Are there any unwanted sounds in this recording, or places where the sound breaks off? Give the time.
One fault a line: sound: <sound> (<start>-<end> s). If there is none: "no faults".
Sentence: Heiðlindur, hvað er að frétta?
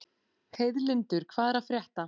no faults